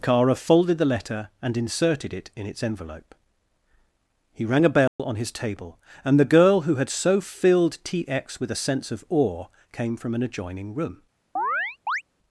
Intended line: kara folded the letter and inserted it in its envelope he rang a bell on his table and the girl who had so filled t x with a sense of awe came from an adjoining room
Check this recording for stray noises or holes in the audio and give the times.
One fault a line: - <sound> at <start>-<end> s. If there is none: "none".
- dropout at 4.9-5.0 s
- chirp at 11.4-12.0 s